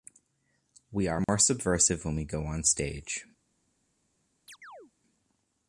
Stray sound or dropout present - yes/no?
yes